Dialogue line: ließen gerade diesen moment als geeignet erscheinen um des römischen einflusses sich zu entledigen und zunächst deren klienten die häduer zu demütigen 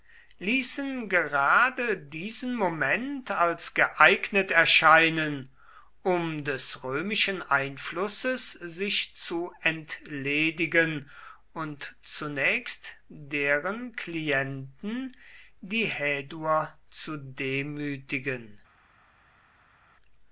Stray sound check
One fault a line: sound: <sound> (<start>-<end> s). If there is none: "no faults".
no faults